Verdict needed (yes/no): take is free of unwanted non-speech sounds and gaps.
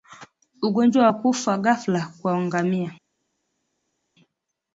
yes